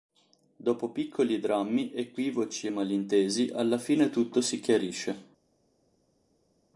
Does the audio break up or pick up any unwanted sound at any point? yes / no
no